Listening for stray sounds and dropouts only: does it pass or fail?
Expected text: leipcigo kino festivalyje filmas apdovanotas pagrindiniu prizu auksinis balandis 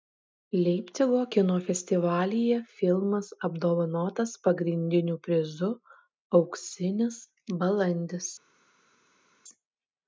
pass